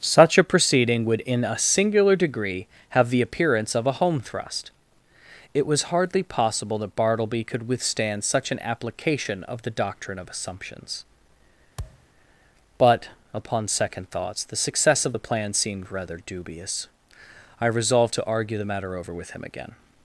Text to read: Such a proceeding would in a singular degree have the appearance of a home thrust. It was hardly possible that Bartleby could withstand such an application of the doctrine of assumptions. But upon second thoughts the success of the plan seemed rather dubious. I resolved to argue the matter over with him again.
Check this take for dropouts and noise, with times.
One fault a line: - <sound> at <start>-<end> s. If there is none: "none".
- thud at 11.8-12.1 s